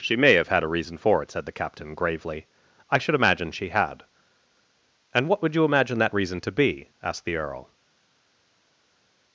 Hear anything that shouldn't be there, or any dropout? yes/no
no